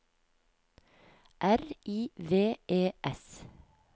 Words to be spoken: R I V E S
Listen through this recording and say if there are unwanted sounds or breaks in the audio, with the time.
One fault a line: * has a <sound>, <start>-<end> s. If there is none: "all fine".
all fine